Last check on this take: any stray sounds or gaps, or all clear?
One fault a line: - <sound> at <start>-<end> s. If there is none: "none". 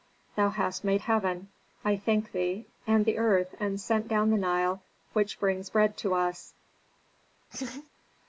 - laugh at 7.5-7.9 s